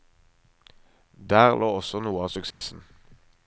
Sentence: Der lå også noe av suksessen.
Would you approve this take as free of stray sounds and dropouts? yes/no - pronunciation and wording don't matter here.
no